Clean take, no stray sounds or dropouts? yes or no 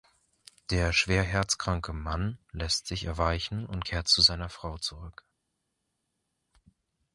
yes